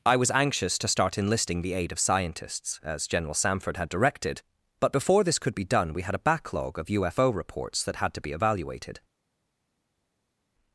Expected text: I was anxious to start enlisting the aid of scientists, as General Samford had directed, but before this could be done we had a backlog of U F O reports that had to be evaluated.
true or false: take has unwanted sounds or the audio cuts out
false